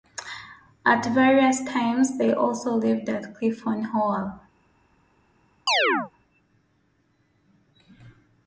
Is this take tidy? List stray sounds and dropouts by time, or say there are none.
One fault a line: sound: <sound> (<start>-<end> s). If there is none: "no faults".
sound: chirp (5.7-6.1 s)